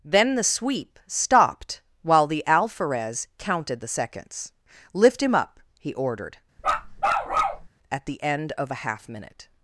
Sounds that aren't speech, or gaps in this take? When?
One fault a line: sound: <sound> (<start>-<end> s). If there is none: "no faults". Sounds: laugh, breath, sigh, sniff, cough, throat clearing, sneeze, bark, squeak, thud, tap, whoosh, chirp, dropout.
sound: bark (6.6-7.7 s)